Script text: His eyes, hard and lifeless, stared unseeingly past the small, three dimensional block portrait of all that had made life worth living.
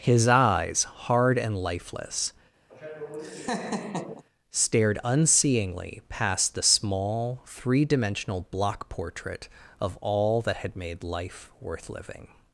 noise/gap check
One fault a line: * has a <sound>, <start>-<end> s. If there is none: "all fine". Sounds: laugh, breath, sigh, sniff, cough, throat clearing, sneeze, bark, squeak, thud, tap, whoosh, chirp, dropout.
* has a laugh, 2.7-4.2 s